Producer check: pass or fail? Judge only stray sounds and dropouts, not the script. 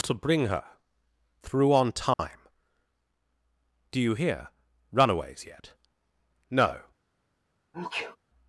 fail